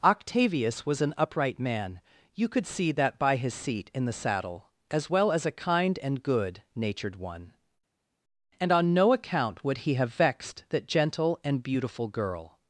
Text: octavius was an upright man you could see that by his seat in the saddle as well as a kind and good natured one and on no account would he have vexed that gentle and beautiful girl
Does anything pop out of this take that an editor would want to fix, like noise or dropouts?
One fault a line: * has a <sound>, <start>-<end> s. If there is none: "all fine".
all fine